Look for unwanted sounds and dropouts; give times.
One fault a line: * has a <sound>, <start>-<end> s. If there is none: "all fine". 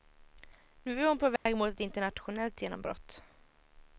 * has a dropout, 1.4-1.5 s